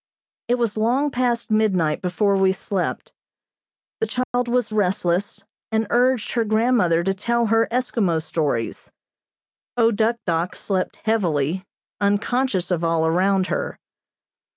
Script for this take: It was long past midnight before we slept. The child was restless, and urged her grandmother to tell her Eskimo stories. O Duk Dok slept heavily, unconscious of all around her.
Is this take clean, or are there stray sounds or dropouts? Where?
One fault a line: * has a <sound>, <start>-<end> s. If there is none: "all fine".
* has a dropout, 4.2-4.3 s